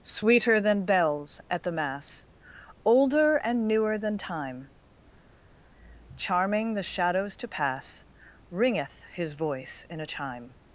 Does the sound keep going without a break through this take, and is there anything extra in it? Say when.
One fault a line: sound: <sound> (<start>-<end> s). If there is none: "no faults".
no faults